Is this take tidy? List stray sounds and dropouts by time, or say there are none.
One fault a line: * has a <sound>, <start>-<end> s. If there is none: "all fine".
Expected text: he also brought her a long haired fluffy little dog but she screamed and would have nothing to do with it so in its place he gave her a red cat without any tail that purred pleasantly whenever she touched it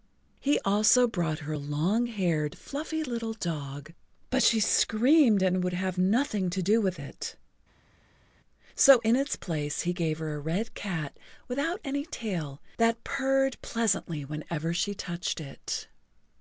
all fine